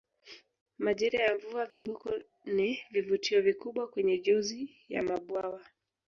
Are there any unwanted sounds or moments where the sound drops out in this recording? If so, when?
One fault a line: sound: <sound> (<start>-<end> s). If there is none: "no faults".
sound: dropout (1.7-1.9 s)